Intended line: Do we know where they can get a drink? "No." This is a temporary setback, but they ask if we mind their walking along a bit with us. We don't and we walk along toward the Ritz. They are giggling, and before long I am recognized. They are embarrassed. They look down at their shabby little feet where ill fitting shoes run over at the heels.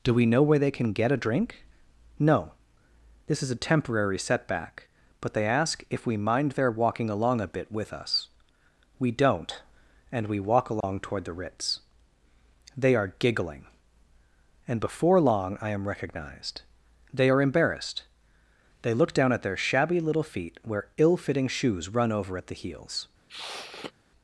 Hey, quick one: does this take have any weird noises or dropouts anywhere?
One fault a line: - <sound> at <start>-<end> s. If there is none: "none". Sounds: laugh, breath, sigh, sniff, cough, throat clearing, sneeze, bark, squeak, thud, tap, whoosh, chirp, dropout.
- dropout at 10.8-10.8 s
- sniff at 23.3-23.9 s